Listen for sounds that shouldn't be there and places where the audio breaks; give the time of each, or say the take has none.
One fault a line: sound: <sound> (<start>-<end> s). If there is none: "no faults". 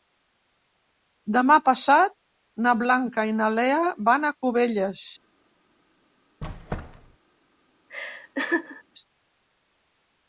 sound: squeak (6.4-7.2 s)
sound: laugh (7.9-8.8 s)